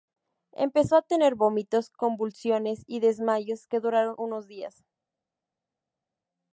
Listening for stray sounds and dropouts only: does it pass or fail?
pass